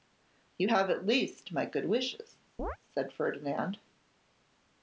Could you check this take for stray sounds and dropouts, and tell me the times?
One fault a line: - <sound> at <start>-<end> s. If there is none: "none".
- chirp at 2.6-2.8 s